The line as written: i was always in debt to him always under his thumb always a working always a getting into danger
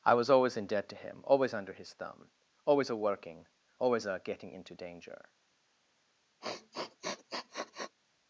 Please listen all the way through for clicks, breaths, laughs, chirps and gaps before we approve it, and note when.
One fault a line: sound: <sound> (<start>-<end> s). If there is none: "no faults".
sound: sniff (6.4-8.0 s)